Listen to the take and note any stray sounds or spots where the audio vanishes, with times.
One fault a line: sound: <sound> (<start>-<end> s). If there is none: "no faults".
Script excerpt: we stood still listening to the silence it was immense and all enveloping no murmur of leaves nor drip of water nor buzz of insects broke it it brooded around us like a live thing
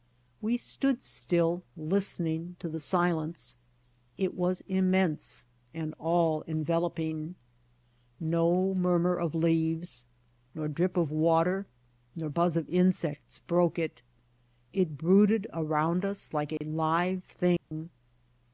sound: dropout (16.6-16.6 s)
sound: dropout (17.6-17.7 s)